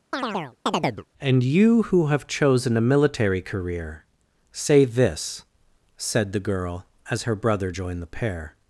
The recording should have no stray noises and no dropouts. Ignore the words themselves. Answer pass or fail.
fail